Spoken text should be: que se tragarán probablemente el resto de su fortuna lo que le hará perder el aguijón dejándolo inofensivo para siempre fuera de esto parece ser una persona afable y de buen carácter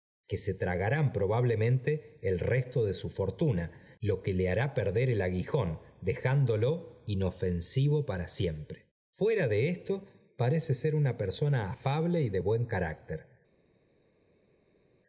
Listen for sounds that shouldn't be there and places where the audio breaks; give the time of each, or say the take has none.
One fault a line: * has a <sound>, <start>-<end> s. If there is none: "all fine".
all fine